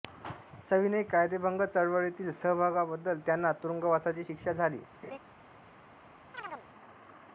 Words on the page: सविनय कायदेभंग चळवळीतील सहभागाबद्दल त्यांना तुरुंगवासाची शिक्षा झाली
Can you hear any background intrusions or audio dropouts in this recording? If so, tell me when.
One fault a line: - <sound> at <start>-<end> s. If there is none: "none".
- laugh at 5.0-5.2 s
- chirp at 6.3-6.7 s